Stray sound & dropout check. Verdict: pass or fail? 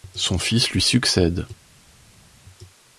pass